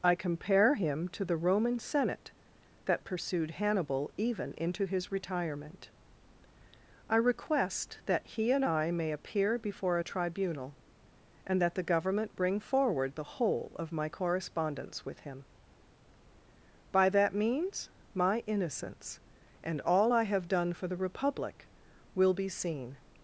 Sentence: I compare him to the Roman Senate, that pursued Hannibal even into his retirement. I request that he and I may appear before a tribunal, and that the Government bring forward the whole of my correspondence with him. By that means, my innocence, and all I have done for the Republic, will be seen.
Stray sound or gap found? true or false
false